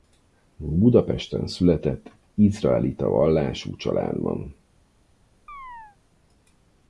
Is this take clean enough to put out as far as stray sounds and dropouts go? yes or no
no